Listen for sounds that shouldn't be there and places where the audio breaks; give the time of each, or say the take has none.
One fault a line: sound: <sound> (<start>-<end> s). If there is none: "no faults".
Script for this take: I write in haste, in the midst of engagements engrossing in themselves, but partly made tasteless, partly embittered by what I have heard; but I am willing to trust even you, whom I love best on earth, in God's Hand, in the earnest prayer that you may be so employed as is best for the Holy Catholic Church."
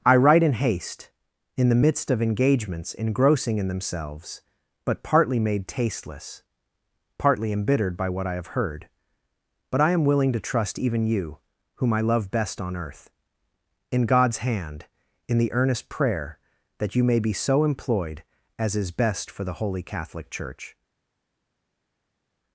no faults